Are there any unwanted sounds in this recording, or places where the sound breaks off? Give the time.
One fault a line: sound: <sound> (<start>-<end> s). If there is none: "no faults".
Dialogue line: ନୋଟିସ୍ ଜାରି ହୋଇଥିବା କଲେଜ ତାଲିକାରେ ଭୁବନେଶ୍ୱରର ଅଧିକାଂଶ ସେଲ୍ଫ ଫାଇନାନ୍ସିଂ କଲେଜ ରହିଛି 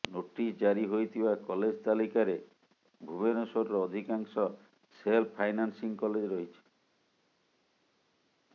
no faults